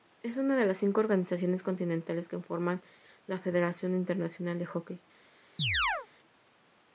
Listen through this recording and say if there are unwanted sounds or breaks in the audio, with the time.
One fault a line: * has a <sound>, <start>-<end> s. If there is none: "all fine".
* has a chirp, 5.6-6.1 s